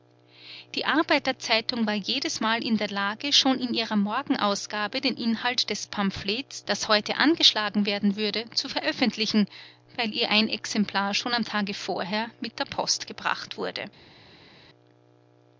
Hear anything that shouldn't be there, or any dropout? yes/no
no